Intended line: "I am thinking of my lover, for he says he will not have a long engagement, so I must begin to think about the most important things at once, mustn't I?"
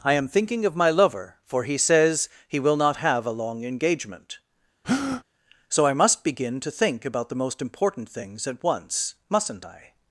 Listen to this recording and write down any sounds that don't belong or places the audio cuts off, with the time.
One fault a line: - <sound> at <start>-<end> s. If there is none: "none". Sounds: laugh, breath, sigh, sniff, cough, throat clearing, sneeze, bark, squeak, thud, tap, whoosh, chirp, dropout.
- breath at 4.8-5.2 s